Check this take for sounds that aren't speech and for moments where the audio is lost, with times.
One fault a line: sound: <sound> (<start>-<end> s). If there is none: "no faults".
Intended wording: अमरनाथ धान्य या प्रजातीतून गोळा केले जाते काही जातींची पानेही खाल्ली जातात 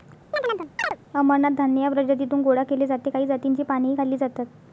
sound: chirp (0.3-1.0 s)